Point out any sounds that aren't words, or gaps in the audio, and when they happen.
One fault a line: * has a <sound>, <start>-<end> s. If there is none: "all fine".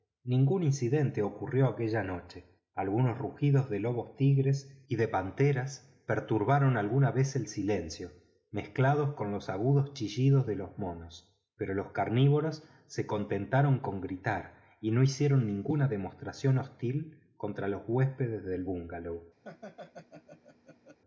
* has a laugh, 19.4-21.0 s